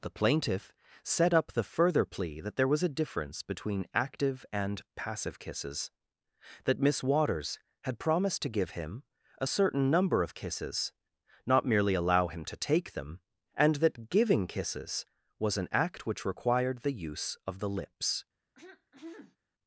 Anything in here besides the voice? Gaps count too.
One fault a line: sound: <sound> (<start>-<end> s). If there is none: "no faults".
sound: throat clearing (18.5-19.4 s)